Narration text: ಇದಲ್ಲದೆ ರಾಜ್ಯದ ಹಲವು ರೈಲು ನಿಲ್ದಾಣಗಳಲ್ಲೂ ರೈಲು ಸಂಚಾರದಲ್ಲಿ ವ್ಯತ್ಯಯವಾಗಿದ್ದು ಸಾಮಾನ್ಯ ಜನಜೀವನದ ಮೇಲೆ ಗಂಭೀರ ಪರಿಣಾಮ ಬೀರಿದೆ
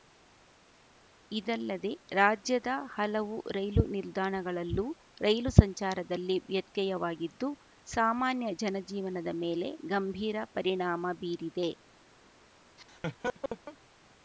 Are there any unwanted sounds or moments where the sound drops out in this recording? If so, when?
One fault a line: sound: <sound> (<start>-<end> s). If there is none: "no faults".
sound: laugh (12.8-13.8 s)